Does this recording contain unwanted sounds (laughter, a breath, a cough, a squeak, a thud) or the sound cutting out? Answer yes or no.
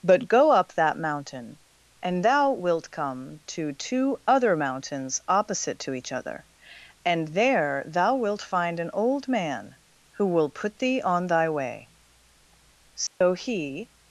yes